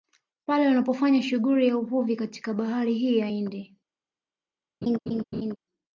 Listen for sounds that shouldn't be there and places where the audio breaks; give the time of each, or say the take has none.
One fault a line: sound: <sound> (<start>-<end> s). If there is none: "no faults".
sound: laugh (4.8-5.6 s)